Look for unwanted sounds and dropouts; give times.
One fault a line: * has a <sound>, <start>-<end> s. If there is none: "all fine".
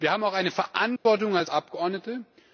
* has a dropout, 1.0-1.1 s